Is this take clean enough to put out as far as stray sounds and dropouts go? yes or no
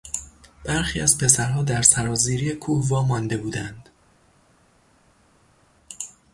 yes